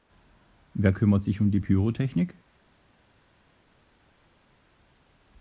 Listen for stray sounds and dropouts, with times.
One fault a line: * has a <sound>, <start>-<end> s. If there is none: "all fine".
all fine